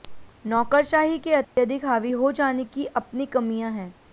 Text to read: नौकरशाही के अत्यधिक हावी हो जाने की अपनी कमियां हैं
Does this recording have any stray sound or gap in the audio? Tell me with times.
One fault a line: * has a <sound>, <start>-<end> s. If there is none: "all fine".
* has a dropout, 1.4-1.6 s